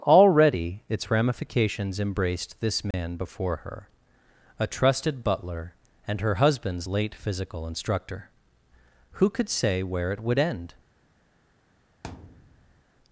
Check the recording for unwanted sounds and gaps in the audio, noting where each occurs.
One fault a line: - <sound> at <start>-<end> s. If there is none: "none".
- dropout at 2.9-2.9 s
- thud at 12.0-12.8 s